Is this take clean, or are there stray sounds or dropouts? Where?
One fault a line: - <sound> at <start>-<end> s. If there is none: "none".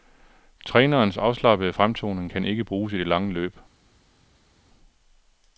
none